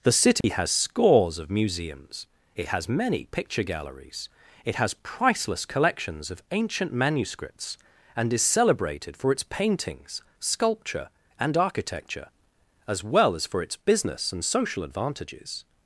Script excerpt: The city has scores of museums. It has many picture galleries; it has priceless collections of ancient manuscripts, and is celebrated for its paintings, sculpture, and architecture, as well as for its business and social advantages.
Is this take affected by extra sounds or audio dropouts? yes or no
yes